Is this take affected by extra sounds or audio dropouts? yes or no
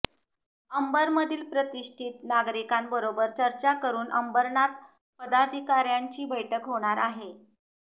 no